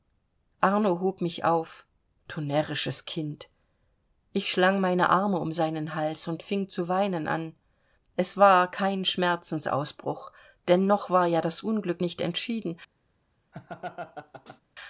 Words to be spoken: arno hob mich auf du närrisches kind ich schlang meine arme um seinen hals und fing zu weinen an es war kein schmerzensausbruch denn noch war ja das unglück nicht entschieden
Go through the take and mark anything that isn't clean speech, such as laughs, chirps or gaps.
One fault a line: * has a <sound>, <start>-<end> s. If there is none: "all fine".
* has a laugh, 13.5-14.6 s